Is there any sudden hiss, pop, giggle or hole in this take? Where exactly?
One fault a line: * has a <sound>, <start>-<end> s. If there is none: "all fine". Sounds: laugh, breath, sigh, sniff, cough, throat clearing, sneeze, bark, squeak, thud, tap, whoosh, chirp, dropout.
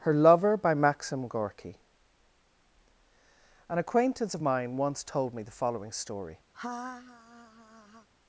* has a laugh, 6.5-8.1 s